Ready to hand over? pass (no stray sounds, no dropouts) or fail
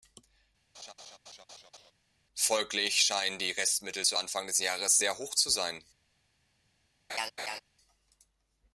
fail